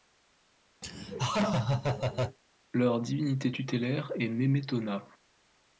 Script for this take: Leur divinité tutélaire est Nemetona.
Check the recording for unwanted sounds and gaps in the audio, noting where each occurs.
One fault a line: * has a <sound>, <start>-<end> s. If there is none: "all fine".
* has a laugh, 0.8-2.4 s